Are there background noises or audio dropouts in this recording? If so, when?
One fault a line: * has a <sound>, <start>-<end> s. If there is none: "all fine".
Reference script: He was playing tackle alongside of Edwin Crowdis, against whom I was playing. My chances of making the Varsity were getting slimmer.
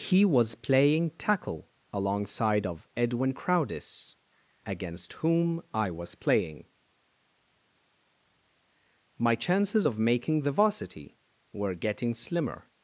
all fine